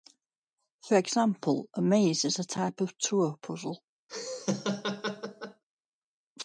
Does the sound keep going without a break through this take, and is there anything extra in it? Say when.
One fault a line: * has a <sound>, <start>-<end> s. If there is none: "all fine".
* has a laugh, 4.1-5.6 s